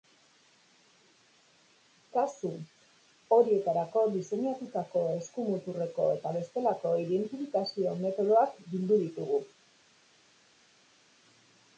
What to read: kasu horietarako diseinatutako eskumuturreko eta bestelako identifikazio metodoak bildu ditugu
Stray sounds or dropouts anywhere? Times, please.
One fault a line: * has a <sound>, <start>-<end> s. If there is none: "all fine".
all fine